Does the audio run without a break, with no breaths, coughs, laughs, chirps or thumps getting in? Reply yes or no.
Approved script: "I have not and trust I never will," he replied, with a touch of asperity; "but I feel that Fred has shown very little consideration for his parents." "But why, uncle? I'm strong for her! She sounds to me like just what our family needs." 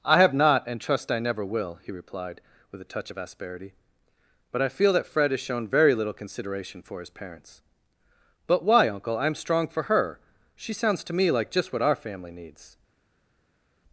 yes